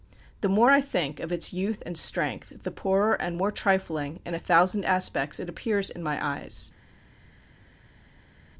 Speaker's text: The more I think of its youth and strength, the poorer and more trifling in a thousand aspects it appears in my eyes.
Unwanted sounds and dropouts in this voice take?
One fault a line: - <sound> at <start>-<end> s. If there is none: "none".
none